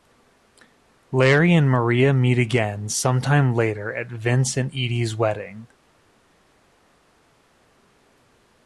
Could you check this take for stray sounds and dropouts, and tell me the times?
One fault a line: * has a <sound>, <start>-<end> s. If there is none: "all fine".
all fine